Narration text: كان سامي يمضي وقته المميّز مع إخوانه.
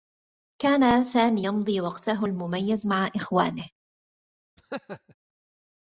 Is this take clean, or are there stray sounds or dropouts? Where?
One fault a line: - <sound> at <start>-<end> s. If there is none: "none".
- laugh at 4.6-5.1 s